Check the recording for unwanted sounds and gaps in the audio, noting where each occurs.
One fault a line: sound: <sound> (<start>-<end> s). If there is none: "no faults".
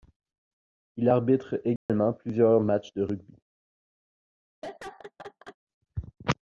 sound: dropout (1.8-1.9 s)
sound: laugh (4.6-5.6 s)